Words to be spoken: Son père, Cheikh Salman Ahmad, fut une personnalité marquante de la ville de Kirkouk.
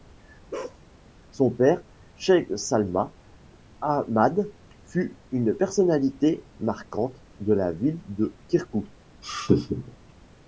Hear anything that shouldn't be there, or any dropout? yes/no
yes